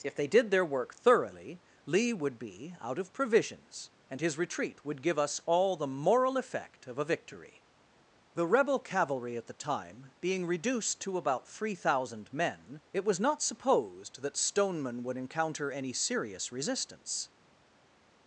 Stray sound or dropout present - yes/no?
no